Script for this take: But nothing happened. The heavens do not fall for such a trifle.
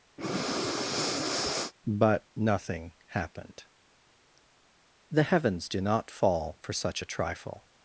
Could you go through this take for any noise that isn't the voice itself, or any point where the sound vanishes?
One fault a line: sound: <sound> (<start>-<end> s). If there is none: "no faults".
sound: breath (0.2-1.7 s)